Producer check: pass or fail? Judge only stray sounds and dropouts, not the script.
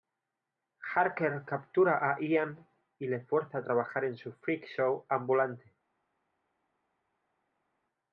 pass